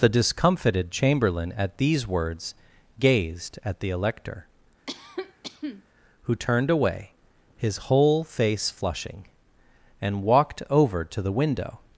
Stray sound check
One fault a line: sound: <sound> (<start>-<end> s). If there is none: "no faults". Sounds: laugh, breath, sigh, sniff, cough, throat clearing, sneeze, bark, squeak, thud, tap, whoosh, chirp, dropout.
sound: cough (4.9-5.8 s)